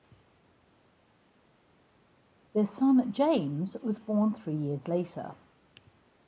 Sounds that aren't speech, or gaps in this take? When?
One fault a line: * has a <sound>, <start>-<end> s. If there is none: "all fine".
all fine